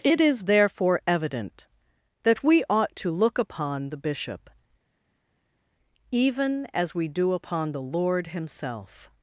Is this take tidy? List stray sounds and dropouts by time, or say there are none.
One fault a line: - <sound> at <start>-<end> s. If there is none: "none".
none